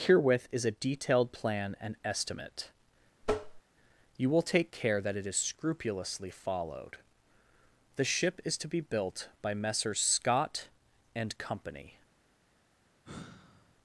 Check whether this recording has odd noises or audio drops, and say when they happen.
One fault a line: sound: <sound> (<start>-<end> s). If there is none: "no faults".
sound: tap (3.2-3.6 s)
sound: sigh (13.0-13.8 s)